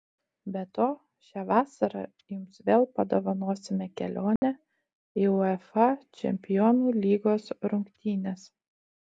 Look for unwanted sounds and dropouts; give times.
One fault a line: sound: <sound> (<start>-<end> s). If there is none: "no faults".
sound: dropout (4.4-4.4 s)